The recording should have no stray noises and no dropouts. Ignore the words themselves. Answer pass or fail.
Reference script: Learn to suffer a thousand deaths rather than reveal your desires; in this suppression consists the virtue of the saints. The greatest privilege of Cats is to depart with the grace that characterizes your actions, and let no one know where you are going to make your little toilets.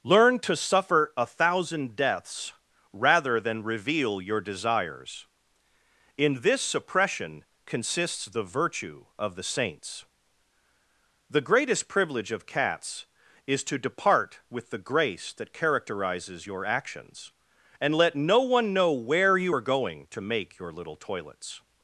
pass